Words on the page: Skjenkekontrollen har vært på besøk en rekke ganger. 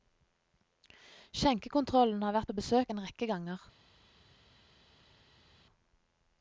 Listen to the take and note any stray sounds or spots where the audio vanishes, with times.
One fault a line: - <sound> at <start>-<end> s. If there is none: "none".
none